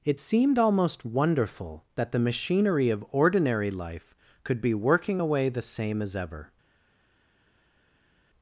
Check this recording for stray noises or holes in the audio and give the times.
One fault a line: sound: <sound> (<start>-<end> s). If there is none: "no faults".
no faults